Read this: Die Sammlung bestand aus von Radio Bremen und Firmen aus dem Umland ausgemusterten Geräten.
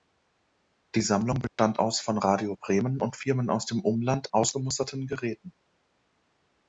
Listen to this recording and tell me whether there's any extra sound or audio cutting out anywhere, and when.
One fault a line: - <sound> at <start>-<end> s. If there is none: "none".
- dropout at 1.5-1.6 s